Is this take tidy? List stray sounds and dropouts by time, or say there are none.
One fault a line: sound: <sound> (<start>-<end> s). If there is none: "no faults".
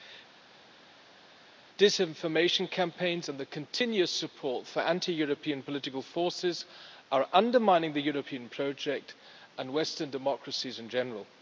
no faults